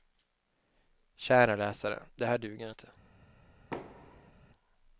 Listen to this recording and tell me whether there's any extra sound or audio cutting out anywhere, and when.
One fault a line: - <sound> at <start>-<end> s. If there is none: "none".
- thud at 3.7-4.3 s